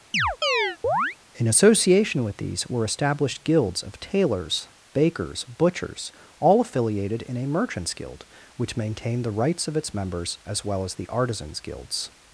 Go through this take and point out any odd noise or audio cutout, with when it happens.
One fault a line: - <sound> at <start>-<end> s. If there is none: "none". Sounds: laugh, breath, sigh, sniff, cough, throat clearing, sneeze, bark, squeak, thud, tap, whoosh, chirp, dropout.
- chirp at 0.1-1.2 s